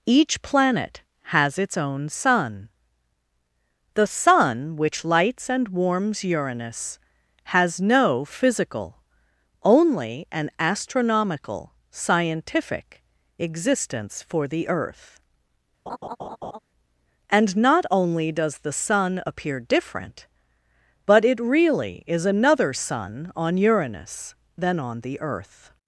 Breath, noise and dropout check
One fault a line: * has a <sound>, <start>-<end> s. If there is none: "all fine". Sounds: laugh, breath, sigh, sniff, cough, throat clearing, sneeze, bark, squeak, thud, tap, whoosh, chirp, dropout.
* has a laugh, 15.9-16.6 s